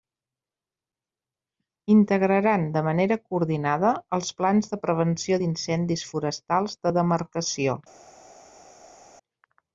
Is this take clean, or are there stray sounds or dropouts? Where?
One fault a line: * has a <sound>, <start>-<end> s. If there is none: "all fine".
all fine